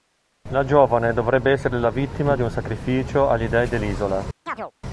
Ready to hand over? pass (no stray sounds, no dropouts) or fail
fail